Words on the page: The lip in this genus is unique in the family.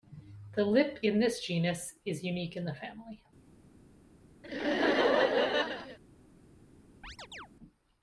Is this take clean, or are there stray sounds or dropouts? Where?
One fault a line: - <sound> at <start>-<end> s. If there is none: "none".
- laugh at 4.4-6.0 s
- chirp at 7.0-7.5 s